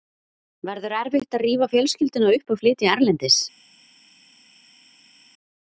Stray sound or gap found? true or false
false